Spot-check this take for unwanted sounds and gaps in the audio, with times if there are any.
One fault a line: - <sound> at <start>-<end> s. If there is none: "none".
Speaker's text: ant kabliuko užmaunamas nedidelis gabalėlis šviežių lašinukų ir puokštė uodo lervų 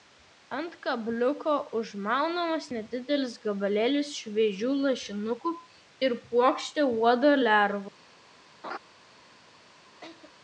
- laugh at 8.6-8.8 s
- laugh at 10.0-10.3 s